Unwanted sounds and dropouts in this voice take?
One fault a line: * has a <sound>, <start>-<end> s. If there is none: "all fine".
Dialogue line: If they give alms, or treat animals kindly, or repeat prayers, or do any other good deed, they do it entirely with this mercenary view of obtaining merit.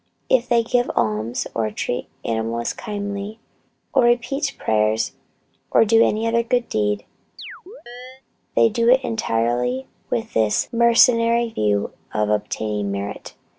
* has a chirp, 7.4-8.2 s